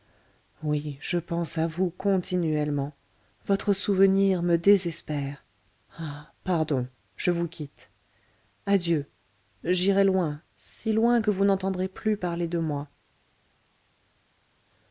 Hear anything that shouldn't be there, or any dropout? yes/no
no